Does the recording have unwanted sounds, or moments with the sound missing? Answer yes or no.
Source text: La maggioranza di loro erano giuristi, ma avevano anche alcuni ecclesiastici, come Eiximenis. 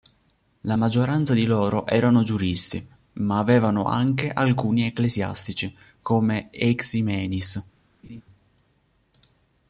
yes